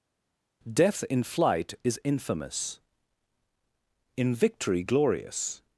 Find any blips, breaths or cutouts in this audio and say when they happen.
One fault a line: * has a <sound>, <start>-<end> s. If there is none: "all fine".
all fine